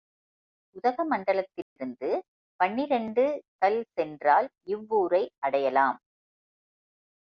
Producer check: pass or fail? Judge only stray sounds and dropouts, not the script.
fail